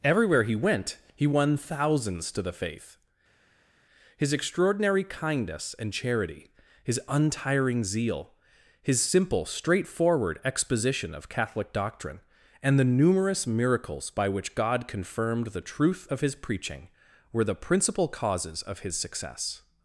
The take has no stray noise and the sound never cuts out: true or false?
true